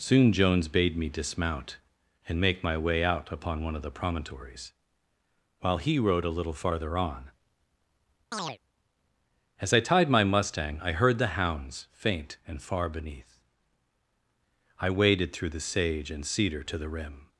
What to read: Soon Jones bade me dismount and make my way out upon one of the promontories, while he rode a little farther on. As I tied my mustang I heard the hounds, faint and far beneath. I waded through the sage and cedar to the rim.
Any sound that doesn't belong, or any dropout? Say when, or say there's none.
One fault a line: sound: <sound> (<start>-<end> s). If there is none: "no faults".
sound: chirp (8.3-8.6 s)